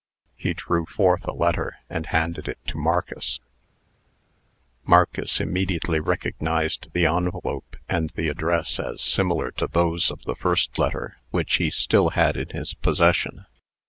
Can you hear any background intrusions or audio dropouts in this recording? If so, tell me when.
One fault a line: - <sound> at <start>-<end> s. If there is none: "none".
none